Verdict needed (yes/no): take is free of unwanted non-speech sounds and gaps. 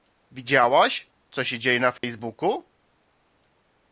no